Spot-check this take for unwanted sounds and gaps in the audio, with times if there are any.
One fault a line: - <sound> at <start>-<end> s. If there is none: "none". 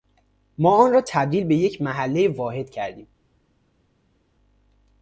none